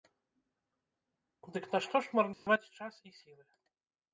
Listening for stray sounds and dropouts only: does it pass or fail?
fail